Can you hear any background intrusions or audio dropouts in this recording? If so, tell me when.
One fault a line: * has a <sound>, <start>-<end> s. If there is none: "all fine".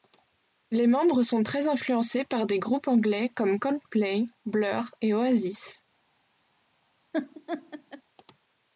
* has a laugh, 7.1-8.0 s